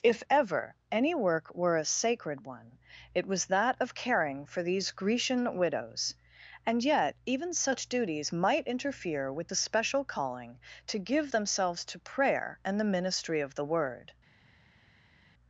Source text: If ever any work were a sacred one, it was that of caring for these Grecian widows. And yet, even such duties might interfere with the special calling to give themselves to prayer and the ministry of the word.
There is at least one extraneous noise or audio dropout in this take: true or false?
false